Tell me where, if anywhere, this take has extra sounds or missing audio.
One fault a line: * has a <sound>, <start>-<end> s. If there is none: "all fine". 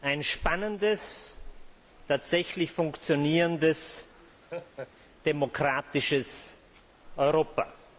* has a laugh, 4.4-4.9 s